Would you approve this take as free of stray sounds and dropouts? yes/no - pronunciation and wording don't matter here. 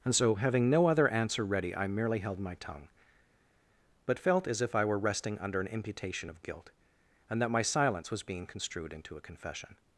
yes